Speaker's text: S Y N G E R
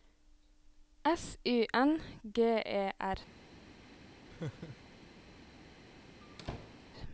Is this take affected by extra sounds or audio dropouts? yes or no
yes